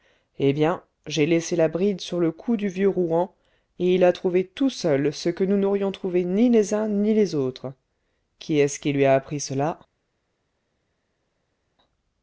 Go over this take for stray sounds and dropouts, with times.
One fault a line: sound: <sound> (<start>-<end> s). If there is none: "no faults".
no faults